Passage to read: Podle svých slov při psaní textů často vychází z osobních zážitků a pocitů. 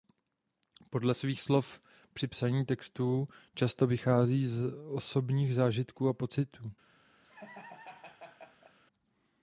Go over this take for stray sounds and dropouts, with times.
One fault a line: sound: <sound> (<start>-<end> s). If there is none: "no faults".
sound: laugh (7.2-8.8 s)